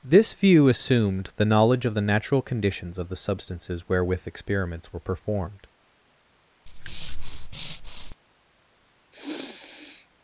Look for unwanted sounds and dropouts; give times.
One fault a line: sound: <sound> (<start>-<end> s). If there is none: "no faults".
sound: breath (6.7-8.2 s)
sound: sniff (9.1-10.1 s)